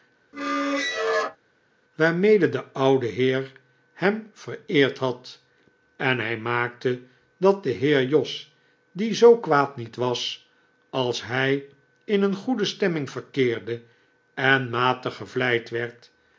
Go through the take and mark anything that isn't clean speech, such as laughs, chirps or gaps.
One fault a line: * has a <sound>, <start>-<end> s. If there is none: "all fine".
* has a squeak, 0.3-1.4 s